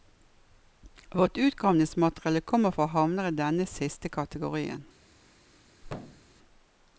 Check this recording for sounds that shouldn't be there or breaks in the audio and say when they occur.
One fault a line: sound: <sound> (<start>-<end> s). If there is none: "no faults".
sound: thud (5.8-6.3 s)